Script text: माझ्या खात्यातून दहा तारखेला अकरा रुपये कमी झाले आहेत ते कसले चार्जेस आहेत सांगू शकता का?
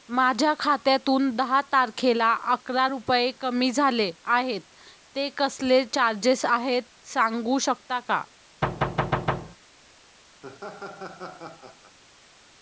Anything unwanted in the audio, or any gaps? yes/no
yes